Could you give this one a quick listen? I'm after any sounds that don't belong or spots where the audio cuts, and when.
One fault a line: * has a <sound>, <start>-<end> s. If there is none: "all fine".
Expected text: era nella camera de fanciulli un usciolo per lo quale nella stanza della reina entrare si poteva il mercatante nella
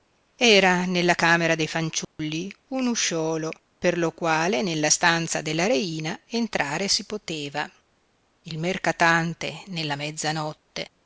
* has a dropout, 2.0-2.2 s